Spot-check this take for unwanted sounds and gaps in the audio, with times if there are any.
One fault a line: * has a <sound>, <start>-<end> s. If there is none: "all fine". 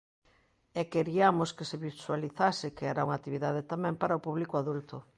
all fine